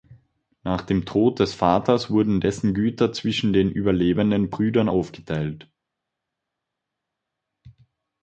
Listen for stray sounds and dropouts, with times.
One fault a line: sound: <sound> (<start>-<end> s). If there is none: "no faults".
no faults